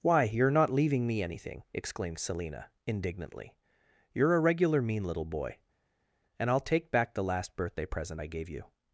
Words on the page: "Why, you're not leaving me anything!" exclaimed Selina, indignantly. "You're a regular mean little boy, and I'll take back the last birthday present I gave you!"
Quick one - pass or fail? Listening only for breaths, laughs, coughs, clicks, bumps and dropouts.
pass